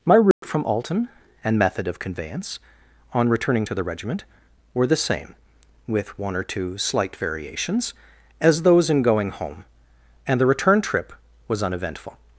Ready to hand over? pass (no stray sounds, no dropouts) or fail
fail